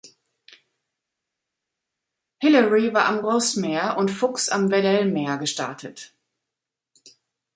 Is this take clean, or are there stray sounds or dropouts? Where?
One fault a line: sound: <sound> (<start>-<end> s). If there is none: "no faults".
no faults